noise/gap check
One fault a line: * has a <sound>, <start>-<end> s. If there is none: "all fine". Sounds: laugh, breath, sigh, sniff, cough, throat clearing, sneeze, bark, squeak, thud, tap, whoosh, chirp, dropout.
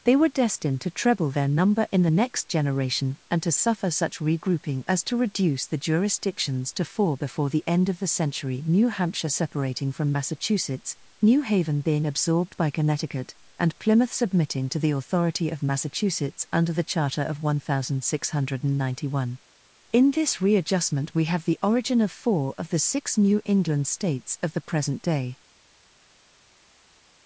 all fine